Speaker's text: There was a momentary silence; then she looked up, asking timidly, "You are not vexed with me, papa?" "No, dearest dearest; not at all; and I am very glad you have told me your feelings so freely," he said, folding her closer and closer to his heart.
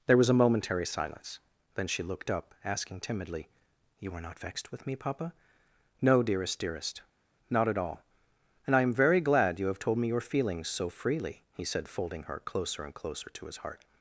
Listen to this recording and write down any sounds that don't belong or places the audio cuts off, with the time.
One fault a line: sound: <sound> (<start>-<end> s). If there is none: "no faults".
no faults